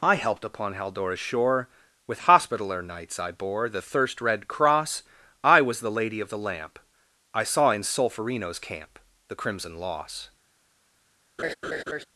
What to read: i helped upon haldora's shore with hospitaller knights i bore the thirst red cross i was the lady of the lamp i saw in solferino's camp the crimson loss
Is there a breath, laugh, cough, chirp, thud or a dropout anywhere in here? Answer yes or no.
yes